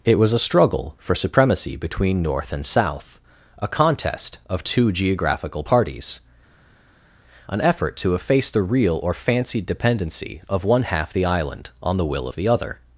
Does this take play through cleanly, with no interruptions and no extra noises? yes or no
yes